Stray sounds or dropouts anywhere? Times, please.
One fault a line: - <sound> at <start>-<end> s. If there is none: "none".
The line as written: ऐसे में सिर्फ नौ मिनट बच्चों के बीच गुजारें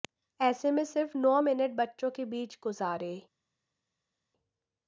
none